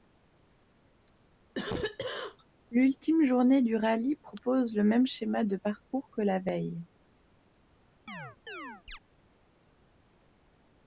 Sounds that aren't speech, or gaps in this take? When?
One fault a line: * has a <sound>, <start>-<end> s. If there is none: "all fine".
* has a cough, 1.5-2.4 s
* has a chirp, 8.1-9.0 s